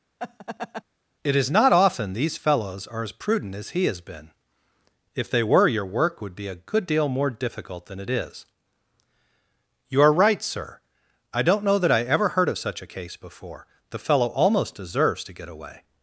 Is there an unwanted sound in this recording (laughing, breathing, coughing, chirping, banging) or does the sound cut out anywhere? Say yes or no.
yes